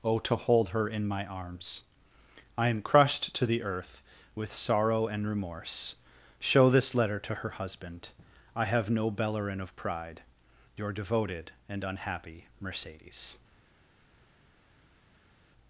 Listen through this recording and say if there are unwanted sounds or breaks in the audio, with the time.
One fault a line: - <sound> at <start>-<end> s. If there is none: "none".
none